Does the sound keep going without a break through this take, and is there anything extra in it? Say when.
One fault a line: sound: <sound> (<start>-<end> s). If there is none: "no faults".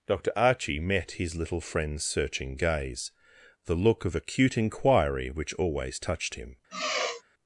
sound: sigh (6.7-7.2 s)